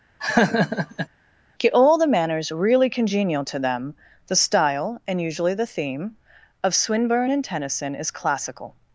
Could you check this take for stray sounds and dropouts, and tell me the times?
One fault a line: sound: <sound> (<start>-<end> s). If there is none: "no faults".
sound: laugh (0.2-1.1 s)